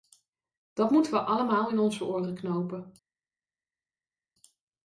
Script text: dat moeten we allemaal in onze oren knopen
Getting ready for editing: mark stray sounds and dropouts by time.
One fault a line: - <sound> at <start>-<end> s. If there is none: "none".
none